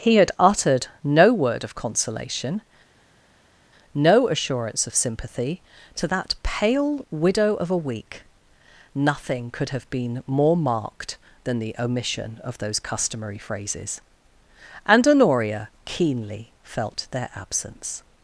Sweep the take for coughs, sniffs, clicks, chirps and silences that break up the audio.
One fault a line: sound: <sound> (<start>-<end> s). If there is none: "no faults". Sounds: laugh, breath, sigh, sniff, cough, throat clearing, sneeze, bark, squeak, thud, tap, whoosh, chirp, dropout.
no faults